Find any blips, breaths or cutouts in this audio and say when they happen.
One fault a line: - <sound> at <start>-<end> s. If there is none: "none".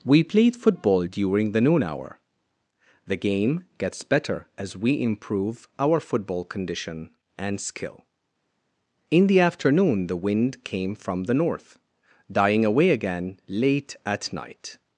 none